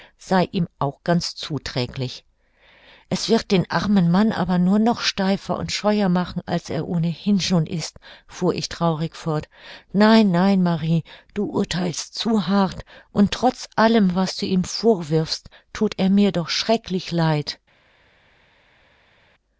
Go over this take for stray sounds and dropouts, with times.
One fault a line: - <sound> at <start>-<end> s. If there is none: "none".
none